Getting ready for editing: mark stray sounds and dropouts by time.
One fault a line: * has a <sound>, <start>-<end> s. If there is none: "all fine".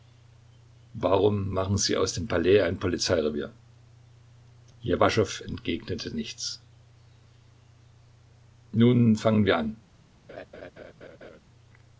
* has a laugh, 10.3-11.4 s